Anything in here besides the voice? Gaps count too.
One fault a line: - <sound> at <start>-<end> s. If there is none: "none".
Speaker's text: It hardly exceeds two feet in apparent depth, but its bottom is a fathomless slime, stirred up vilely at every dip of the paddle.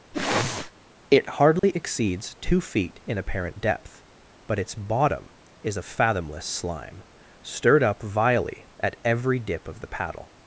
- sniff at 0.1-0.7 s
- dropout at 1.6-1.6 s